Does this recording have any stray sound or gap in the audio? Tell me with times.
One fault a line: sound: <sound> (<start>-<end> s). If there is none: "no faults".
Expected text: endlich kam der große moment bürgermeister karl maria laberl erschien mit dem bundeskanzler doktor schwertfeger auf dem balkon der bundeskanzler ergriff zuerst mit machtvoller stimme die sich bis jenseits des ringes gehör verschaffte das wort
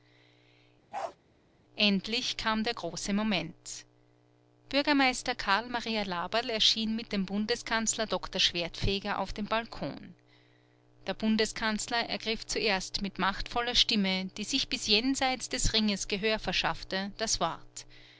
sound: bark (0.9-1.2 s)